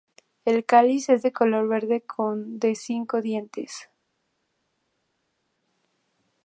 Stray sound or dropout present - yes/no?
no